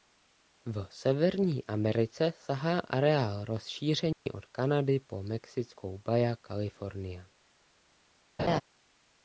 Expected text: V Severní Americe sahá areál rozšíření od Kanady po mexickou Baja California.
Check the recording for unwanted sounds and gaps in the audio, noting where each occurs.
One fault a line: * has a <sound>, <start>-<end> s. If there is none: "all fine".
* has a dropout, 4.1-4.3 s
* has a laugh, 8.4-8.6 s